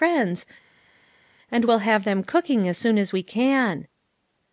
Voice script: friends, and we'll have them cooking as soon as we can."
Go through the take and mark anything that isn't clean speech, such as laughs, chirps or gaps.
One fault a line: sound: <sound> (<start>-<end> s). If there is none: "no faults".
no faults